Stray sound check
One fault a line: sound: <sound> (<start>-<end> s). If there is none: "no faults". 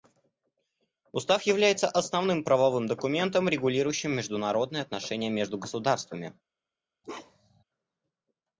sound: bark (7.0-7.6 s)